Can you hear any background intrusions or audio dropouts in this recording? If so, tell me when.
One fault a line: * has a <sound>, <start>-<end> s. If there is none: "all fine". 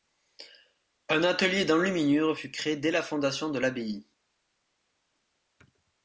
all fine